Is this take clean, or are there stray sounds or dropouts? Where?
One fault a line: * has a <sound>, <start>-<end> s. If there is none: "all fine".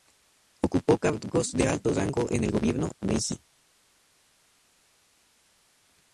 all fine